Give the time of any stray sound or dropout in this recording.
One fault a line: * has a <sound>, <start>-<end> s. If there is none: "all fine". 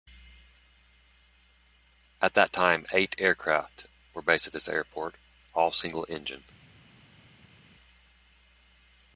all fine